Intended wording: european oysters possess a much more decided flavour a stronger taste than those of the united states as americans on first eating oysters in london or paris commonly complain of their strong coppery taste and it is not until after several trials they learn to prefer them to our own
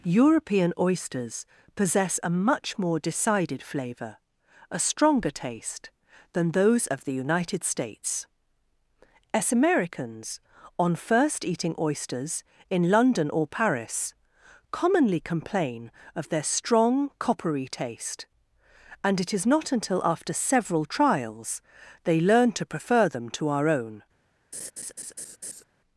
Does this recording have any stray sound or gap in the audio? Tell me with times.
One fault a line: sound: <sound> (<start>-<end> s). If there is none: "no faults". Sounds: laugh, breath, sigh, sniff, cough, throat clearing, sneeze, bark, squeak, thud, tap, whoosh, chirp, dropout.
sound: laugh (24.5-25.6 s)